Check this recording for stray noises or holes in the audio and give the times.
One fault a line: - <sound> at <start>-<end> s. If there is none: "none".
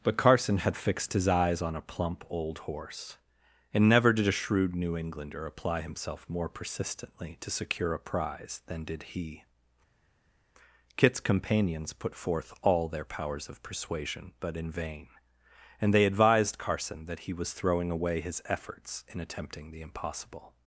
none